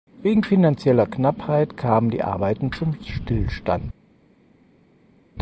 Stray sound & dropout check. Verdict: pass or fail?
pass